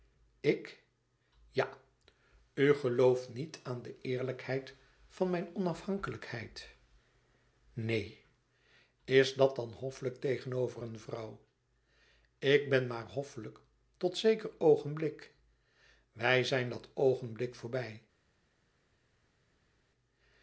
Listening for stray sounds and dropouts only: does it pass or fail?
pass